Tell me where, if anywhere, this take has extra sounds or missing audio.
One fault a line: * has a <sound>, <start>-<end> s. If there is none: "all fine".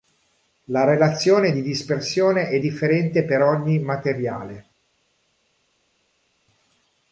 all fine